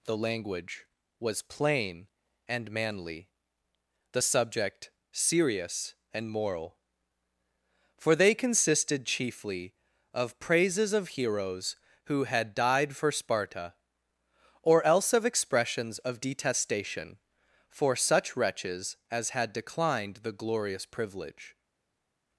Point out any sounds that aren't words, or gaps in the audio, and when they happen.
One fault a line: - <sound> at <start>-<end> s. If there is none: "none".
none